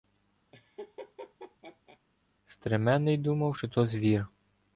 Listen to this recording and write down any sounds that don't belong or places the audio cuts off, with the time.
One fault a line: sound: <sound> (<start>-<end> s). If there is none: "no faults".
sound: laugh (0.5-2.0 s)